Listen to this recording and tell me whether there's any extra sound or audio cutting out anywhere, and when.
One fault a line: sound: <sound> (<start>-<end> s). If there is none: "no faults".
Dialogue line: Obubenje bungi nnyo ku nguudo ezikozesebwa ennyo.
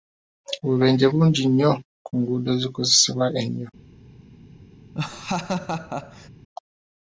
sound: laugh (4.9-6.3 s)